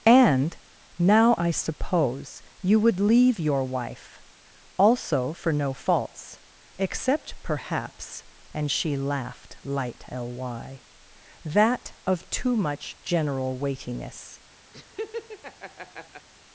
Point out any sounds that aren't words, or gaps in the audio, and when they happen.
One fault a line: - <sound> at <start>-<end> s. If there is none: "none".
- laugh at 14.7-16.3 s